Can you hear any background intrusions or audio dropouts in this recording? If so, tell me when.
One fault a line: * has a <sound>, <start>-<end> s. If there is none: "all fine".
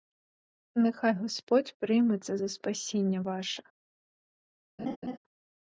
* has a laugh, 4.8-5.2 s